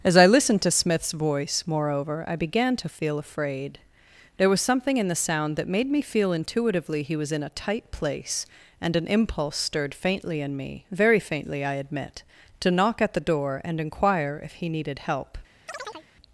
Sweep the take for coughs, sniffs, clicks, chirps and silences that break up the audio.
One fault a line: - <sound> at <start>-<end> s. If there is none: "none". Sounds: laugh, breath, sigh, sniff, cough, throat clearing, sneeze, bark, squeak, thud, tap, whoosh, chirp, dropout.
- chirp at 15.7-16.1 s